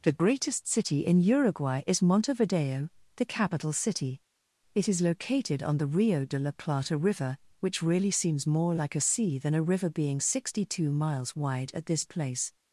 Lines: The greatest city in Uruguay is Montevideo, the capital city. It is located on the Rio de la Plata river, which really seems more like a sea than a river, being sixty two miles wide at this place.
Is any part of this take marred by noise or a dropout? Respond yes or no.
no